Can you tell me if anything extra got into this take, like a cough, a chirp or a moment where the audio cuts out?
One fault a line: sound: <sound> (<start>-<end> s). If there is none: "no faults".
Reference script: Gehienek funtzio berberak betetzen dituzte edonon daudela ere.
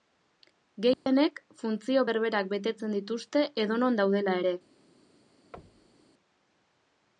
sound: dropout (0.9-1.1 s)
sound: thud (5.5-6.1 s)